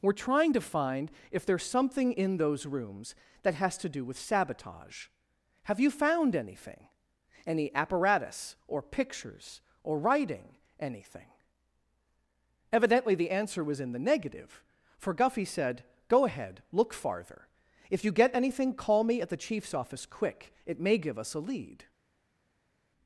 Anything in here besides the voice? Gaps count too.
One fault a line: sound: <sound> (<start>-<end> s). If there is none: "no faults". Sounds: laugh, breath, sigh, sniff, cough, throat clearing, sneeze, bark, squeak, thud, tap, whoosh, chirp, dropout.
no faults